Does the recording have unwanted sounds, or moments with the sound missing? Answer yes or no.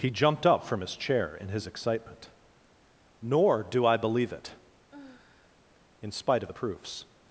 yes